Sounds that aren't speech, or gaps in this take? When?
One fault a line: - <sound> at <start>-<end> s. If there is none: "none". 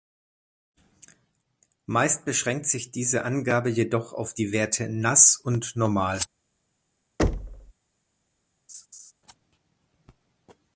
- thud at 7.2-7.7 s
- laugh at 8.7-9.1 s